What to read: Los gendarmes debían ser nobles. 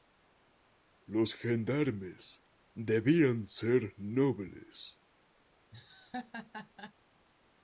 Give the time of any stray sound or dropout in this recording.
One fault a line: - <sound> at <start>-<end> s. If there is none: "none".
- laugh at 5.7-6.9 s